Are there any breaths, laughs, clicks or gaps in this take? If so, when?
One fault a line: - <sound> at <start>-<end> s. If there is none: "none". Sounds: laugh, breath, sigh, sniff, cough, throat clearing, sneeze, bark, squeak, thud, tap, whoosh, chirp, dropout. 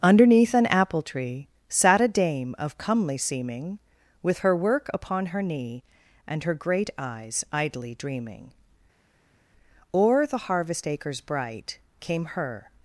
none